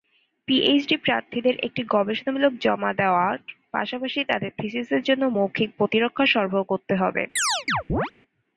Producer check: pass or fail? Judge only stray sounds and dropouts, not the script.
fail